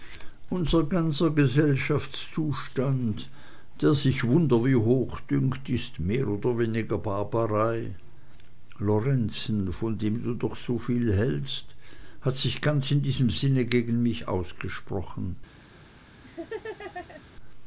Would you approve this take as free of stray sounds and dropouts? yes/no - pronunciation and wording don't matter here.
no